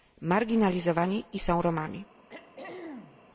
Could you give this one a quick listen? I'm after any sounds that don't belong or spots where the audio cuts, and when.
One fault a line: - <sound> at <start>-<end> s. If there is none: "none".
- throat clearing at 2.3-3.3 s